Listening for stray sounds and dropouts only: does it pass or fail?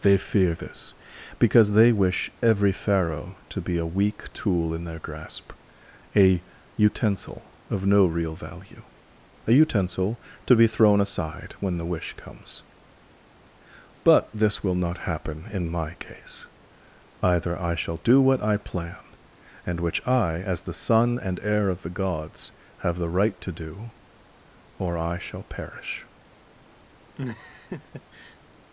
fail